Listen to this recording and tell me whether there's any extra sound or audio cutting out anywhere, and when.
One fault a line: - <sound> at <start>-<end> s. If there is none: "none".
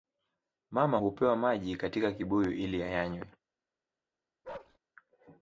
- bark at 4.4-4.8 s